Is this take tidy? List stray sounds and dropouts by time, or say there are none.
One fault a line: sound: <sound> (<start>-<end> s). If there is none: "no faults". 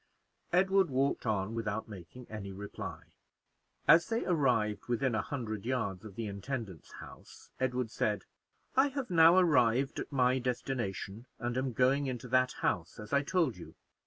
no faults